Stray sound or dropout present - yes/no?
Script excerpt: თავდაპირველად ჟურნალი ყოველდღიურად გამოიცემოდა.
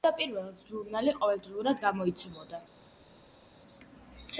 no